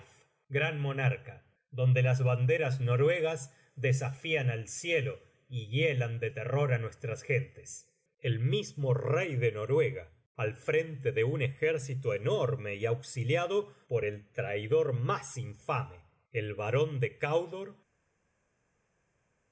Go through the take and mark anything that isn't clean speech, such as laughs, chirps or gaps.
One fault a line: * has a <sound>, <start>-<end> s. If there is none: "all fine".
all fine